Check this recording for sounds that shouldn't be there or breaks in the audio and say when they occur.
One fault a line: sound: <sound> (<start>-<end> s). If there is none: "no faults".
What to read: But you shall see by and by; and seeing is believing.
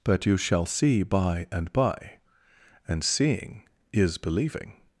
no faults